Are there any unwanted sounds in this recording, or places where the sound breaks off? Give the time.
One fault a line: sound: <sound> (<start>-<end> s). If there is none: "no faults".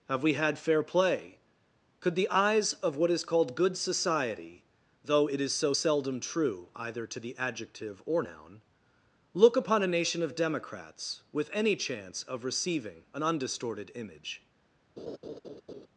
sound: laugh (15.0-15.9 s)